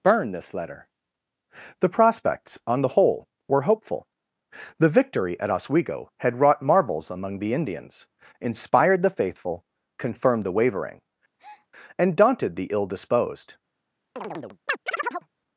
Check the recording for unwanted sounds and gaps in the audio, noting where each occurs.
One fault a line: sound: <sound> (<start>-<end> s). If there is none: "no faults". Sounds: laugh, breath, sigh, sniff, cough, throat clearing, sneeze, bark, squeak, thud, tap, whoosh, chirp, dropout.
sound: breath (11.4-11.7 s)
sound: chirp (14.2-15.3 s)